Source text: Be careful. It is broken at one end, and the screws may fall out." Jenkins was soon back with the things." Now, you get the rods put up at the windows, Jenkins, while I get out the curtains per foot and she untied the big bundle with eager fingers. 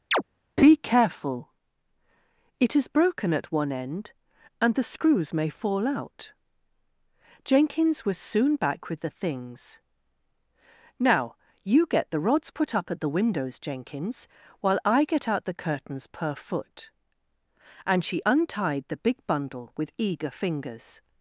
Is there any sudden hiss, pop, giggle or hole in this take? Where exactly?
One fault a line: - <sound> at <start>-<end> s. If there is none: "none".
- chirp at 0.1-0.2 s